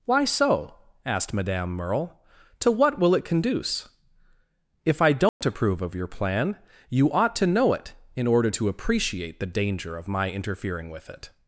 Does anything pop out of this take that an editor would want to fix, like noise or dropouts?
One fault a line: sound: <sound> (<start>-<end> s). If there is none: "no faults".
sound: dropout (5.3-5.4 s)